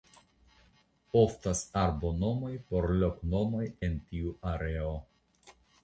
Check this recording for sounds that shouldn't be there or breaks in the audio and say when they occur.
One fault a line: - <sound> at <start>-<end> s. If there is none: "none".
none